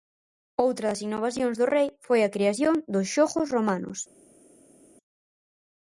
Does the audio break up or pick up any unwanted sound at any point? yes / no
no